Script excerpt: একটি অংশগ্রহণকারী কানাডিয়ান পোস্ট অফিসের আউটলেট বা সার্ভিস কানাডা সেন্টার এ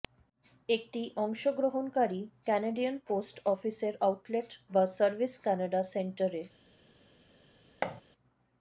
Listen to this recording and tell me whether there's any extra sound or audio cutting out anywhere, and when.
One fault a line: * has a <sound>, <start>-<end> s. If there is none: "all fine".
* has a thud, 7.8-8.0 s